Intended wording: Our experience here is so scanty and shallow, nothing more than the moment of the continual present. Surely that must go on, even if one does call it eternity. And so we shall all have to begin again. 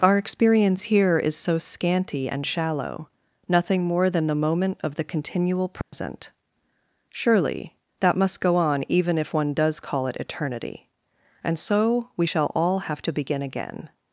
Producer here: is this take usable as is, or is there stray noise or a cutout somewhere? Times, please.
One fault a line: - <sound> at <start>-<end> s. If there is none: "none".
- dropout at 5.8-5.9 s